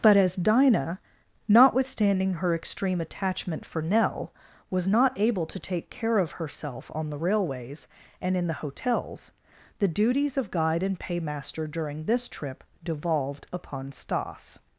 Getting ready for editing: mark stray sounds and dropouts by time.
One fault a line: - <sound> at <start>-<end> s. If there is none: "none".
none